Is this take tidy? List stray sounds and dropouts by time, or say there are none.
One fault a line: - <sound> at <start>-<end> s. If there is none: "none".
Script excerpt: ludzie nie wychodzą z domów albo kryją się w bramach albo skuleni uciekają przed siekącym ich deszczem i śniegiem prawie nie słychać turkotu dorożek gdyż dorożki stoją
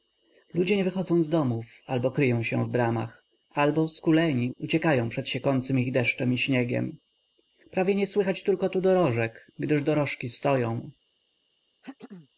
- throat clearing at 11.8-12.3 s